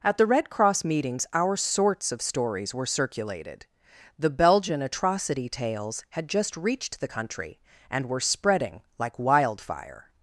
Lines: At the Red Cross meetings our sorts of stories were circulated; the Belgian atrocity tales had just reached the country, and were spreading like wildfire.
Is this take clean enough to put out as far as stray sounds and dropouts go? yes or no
yes